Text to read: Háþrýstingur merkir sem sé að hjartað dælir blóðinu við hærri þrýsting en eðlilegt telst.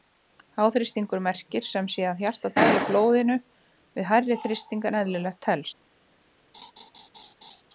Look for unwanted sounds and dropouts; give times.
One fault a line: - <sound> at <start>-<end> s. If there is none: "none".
- laugh at 6.5-7.6 s